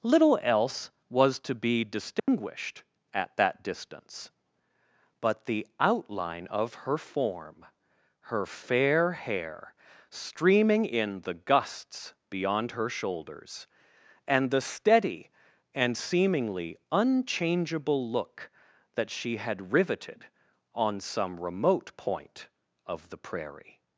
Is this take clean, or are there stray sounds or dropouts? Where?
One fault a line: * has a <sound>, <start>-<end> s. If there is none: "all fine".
* has a dropout, 2.2-2.3 s